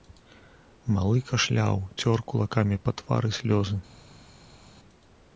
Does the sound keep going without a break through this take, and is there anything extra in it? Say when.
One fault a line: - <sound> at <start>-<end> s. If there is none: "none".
none